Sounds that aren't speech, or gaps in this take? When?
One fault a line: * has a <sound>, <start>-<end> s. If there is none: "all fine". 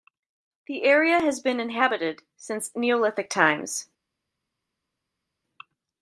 all fine